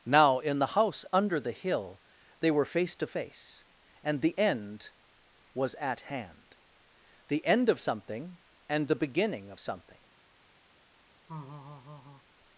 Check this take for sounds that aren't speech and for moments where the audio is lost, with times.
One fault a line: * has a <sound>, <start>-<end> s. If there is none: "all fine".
* has a laugh, 11.3-12.2 s